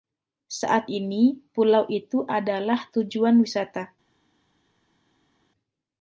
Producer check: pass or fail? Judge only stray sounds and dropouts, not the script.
pass